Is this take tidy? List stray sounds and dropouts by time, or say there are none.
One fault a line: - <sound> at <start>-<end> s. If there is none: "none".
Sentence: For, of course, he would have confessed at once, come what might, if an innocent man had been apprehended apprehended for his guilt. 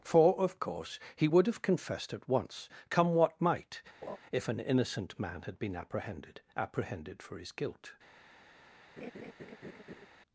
- laugh at 4.0-4.2 s
- laugh at 9.0-10.1 s